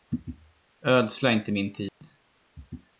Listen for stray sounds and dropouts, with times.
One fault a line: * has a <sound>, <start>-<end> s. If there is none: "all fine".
* has a dropout, 1.9-2.0 s